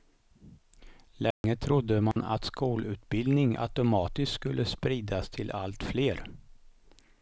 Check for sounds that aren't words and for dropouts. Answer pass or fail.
fail